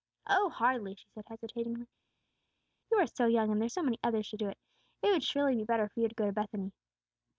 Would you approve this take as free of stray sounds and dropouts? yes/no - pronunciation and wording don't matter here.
yes